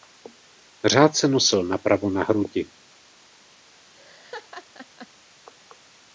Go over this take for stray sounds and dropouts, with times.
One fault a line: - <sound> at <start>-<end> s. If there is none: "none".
- laugh at 3.9-5.1 s